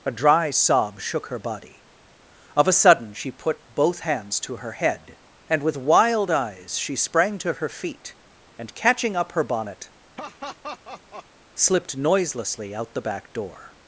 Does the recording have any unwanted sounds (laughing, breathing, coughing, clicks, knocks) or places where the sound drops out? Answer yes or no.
yes